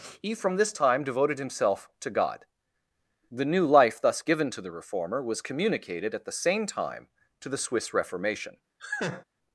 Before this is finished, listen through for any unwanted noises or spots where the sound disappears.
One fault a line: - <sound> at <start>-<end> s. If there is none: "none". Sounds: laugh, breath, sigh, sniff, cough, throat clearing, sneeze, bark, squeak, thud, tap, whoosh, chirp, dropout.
- laugh at 8.8-9.2 s